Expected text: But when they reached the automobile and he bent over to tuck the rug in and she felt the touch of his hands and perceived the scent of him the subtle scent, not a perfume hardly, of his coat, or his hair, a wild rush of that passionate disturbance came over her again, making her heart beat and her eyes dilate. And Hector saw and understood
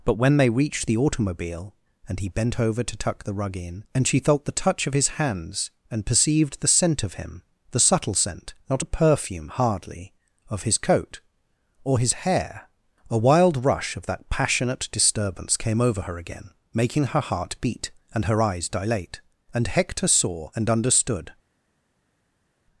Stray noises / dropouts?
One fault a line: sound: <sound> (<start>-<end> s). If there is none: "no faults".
no faults